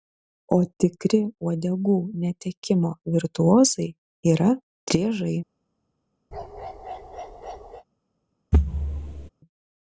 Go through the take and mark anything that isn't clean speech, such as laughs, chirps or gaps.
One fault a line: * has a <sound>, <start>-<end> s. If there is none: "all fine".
* has a bark, 6.3-7.8 s
* has a thud, 8.5-9.3 s